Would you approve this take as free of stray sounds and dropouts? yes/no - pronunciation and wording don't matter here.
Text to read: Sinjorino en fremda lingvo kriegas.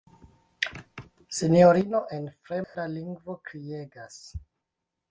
no